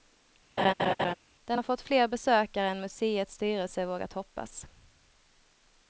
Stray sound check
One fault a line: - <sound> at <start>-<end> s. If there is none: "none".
- laugh at 0.6-1.1 s